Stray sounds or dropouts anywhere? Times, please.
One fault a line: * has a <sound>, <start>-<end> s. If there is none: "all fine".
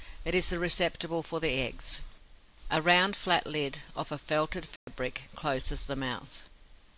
* has a dropout, 4.8-4.9 s